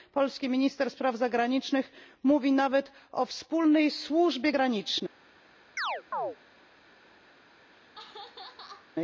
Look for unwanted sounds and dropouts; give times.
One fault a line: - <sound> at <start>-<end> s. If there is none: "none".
- chirp at 5.8-6.4 s
- laugh at 7.7-8.9 s